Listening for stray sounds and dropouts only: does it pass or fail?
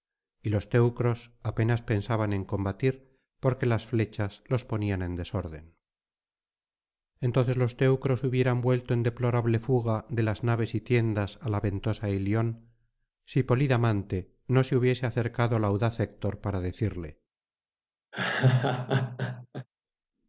fail